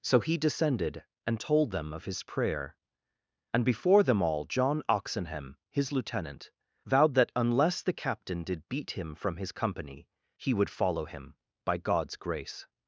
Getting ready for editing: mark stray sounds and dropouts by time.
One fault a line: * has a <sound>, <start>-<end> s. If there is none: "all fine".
all fine